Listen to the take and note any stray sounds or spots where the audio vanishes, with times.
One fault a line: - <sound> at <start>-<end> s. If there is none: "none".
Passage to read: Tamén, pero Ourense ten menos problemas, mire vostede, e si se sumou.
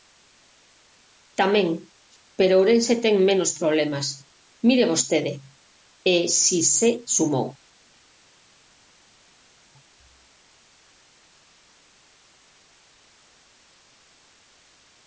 none